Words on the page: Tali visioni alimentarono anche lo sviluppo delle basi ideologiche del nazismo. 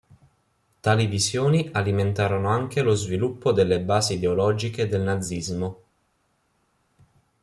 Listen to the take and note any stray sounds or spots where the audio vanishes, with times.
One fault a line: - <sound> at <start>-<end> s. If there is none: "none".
none